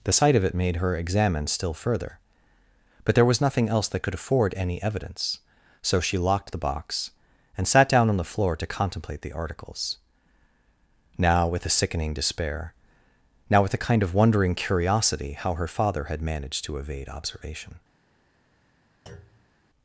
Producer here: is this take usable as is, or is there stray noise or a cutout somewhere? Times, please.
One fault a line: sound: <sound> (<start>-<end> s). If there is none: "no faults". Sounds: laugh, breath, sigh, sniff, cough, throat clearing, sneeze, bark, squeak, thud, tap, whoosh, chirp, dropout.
sound: thud (19.1-19.5 s)